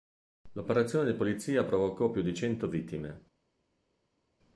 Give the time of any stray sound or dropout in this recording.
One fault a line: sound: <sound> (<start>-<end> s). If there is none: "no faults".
no faults